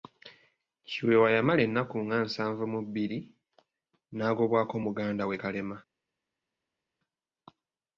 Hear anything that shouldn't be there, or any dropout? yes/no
no